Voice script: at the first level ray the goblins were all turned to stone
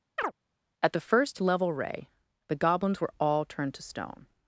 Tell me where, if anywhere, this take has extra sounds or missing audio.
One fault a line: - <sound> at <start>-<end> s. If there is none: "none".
- chirp at 0.2-0.3 s